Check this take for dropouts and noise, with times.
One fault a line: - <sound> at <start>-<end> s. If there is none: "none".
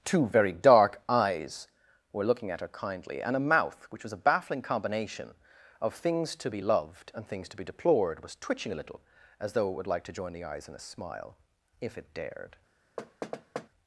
- thud at 13.0-13.7 s